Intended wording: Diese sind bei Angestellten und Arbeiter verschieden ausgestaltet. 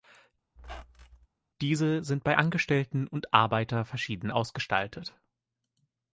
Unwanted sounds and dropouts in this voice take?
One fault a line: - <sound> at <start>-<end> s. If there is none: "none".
- squeak at 0.6-1.3 s